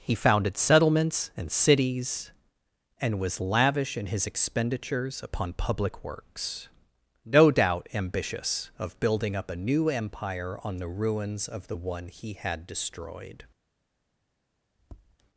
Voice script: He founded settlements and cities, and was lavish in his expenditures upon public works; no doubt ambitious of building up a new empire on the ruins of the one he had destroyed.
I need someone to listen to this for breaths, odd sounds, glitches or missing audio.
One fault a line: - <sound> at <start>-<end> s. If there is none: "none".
- tap at 14.8-15.2 s